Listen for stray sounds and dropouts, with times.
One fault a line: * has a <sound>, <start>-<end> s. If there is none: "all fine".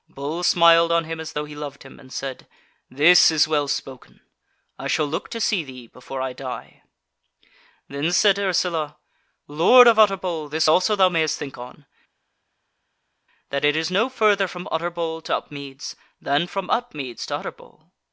all fine